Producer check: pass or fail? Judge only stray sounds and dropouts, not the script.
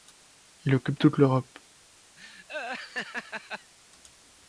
fail